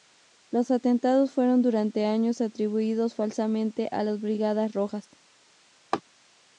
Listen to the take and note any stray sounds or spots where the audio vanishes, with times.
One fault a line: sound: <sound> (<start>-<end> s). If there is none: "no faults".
sound: laugh (5.9-6.0 s)